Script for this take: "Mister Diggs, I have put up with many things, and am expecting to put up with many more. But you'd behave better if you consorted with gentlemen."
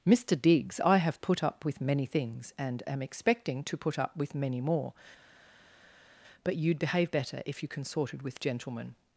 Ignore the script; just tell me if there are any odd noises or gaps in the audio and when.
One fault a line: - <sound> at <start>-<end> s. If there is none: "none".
none